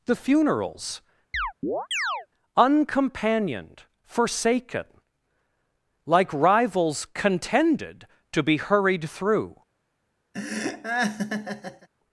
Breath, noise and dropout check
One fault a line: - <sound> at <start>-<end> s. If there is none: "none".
- chirp at 1.3-2.3 s
- laugh at 10.3-11.9 s